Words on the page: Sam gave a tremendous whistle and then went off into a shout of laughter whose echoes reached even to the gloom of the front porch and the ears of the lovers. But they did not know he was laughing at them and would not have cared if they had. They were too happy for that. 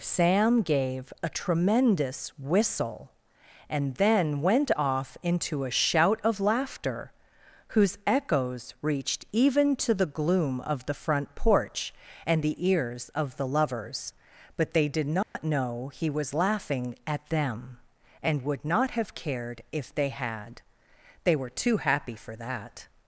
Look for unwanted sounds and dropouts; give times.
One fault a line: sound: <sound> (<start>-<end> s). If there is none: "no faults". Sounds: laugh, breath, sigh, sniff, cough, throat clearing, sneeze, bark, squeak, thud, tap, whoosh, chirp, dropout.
sound: dropout (15.2-15.4 s)